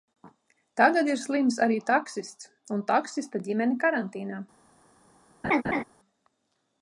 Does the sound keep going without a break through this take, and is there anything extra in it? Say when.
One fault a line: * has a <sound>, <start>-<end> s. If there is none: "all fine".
* has a laugh, 5.4-5.8 s